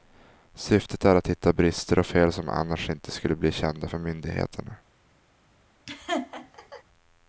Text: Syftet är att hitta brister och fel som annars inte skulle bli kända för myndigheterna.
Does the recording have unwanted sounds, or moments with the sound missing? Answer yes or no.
yes